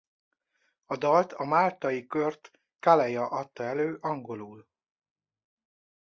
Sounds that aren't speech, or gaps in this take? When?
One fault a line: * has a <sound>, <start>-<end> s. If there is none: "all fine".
all fine